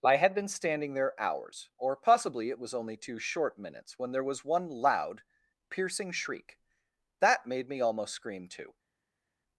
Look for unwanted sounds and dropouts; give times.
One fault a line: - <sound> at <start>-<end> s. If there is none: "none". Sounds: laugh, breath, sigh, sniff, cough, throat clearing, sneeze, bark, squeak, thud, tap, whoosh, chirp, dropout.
none